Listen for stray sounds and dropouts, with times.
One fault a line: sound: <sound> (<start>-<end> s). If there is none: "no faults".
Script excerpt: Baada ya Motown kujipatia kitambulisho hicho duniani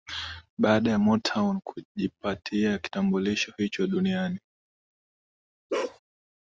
sound: bark (5.7-6.0 s)